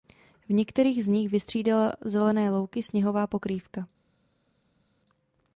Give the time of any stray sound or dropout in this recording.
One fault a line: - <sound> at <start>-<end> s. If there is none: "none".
none